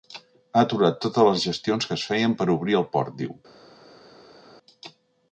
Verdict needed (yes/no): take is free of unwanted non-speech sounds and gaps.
yes